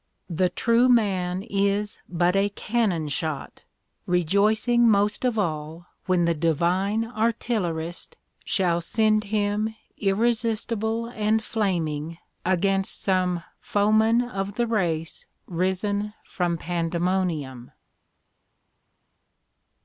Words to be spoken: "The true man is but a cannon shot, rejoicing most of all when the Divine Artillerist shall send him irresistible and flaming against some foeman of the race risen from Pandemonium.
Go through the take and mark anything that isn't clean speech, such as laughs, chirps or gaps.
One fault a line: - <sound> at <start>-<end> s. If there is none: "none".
none